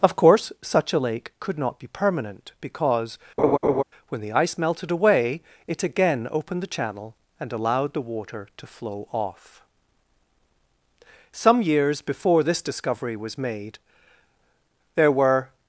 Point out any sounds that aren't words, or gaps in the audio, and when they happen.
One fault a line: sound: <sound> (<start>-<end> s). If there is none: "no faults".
sound: laugh (3.4-3.8 s)